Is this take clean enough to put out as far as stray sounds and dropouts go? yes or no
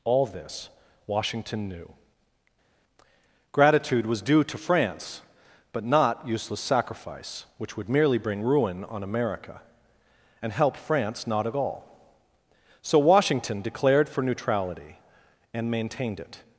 yes